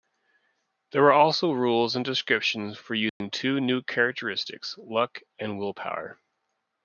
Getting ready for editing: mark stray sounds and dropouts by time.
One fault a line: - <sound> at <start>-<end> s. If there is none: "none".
- dropout at 3.1-3.2 s